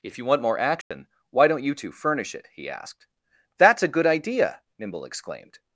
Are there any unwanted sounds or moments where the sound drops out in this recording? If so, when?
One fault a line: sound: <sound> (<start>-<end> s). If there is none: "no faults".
sound: dropout (0.8-0.9 s)